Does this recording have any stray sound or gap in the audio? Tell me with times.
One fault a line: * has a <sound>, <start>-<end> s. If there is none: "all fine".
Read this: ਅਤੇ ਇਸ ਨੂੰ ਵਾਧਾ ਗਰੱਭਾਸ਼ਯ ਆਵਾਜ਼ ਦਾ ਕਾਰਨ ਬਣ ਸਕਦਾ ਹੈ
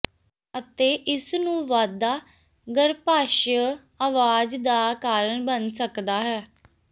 all fine